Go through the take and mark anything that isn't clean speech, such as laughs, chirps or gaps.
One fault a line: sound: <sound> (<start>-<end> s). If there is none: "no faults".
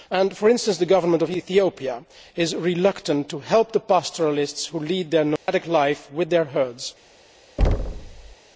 sound: dropout (5.4-5.5 s)
sound: thud (7.6-8.4 s)